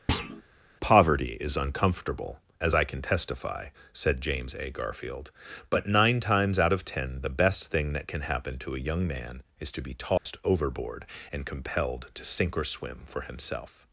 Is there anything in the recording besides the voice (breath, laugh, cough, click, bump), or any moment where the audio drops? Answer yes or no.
yes